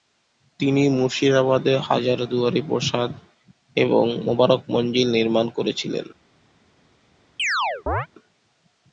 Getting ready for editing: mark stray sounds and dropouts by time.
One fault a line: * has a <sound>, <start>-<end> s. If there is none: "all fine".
* has a chirp, 7.4-8.1 s